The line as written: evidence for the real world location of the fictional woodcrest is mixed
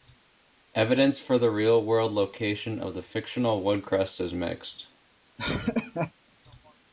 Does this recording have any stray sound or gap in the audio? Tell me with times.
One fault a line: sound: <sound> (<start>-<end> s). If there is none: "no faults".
sound: laugh (5.4-6.1 s)